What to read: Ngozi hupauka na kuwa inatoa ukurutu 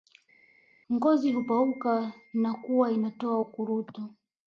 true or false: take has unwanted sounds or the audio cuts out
false